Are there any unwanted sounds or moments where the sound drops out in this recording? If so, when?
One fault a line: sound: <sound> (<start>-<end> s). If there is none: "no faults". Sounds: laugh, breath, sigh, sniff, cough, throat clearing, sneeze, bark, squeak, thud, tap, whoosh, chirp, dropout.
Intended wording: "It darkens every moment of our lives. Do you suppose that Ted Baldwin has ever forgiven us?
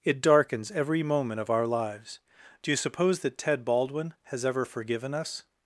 no faults